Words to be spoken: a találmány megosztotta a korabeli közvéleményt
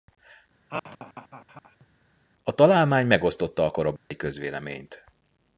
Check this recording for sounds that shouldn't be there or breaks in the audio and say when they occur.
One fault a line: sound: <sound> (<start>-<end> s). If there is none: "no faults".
sound: laugh (0.7-1.9 s)
sound: dropout (4.0-4.1 s)